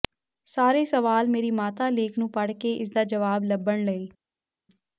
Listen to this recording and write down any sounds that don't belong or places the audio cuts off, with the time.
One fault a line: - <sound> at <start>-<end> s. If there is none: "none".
none